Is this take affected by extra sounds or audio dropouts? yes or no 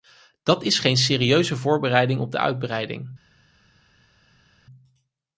no